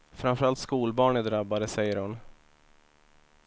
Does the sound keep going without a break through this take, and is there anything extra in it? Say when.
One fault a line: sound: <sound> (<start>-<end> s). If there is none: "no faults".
no faults